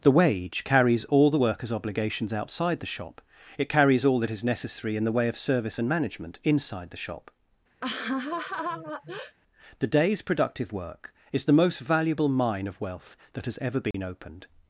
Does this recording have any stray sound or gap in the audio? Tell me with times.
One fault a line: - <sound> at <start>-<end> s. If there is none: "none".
- laugh at 7.8-9.4 s
- dropout at 13.9-13.9 s